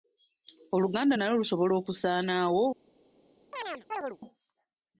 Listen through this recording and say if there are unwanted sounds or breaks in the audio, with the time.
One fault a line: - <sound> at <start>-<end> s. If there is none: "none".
- chirp at 3.5-4.2 s